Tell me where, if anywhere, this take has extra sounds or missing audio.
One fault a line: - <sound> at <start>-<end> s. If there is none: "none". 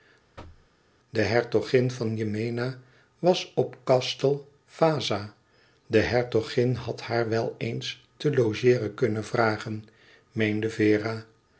- thud at 0.4-0.7 s